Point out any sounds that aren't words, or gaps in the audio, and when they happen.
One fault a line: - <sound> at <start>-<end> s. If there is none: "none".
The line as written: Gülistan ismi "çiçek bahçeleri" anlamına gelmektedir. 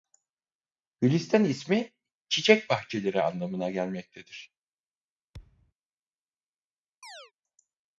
- thud at 5.3-5.7 s
- chirp at 7.0-7.3 s